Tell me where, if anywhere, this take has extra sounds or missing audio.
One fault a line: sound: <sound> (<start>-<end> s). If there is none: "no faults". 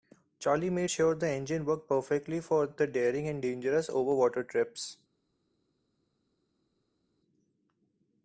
no faults